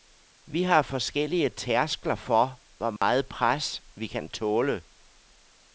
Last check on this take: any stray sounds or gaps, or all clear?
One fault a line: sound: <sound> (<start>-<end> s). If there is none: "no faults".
sound: dropout (3.0-3.0 s)